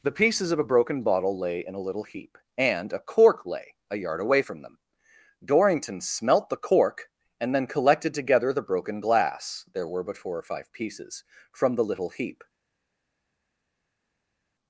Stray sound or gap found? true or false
false